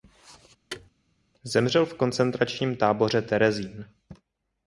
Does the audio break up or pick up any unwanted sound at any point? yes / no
yes